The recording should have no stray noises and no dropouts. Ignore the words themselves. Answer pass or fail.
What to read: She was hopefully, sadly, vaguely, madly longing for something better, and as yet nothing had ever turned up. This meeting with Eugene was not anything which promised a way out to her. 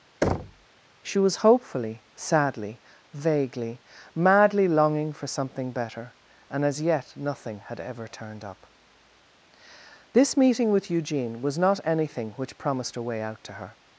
fail